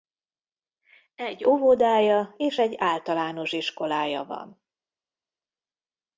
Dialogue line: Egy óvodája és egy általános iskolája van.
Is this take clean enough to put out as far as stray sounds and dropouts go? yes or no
yes